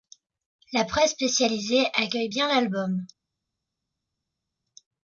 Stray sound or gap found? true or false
false